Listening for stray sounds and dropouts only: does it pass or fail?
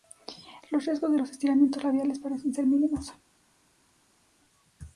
pass